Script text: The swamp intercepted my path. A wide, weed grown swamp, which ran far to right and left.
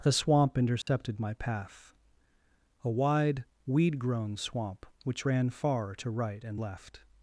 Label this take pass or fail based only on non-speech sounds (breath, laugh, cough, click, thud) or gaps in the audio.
fail